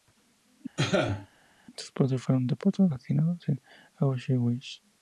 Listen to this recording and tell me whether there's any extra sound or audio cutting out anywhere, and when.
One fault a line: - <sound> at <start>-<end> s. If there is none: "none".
- cough at 0.8-1.3 s